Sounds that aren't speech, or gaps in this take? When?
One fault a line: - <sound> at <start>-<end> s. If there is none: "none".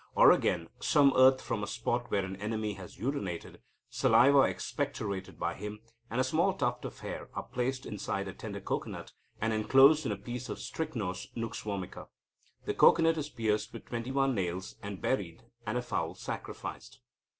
none